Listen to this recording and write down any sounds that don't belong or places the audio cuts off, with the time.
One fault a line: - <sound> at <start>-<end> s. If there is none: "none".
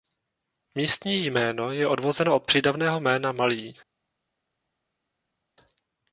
none